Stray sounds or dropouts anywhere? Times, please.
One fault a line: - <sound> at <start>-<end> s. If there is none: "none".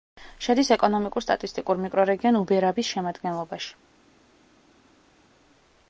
none